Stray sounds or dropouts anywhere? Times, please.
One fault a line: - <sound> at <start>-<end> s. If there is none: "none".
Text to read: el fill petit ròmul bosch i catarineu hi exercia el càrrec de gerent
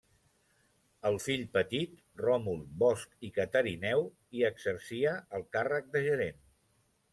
none